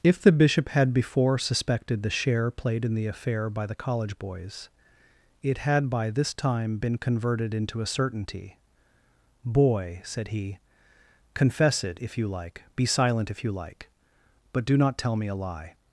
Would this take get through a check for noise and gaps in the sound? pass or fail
pass